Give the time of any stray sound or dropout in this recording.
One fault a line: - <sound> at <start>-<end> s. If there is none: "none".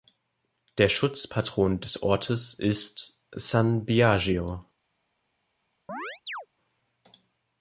- chirp at 5.9-6.5 s